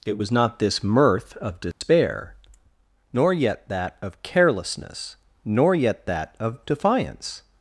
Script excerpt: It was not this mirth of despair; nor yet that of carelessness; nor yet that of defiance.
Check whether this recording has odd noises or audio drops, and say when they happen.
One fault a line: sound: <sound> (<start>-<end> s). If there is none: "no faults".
sound: dropout (1.7-1.8 s)